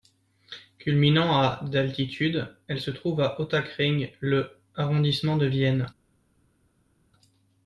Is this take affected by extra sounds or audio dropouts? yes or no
no